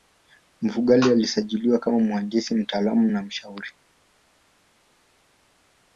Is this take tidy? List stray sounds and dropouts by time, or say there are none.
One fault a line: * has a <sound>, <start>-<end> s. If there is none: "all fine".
all fine